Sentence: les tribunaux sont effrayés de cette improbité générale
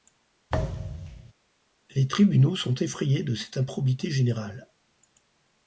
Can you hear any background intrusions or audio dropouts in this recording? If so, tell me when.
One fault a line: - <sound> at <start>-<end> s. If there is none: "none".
- thud at 0.5-1.3 s